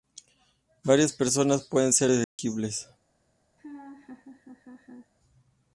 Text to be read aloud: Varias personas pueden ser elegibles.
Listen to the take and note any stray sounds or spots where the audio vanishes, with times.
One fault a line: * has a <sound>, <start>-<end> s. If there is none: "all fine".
* has a dropout, 2.2-2.4 s
* has a laugh, 3.6-5.1 s